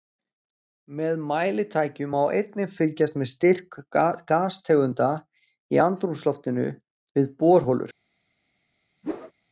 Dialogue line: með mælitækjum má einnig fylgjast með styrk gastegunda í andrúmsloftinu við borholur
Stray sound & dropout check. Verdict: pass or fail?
fail